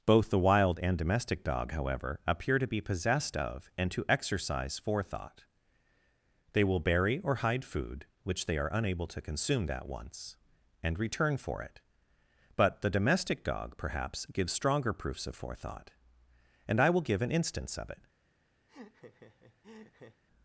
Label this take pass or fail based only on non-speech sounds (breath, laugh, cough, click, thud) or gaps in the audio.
fail